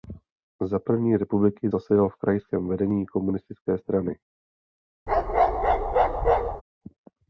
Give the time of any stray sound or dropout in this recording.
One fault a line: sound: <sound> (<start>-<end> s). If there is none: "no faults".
sound: bark (5.1-6.6 s)